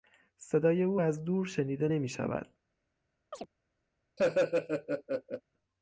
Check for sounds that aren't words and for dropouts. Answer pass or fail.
fail